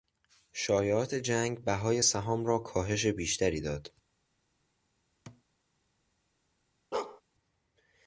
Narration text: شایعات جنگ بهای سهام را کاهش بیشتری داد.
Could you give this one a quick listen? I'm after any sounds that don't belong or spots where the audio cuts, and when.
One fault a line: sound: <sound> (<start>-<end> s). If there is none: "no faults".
sound: thud (5.3-5.4 s)
sound: bark (6.9-7.2 s)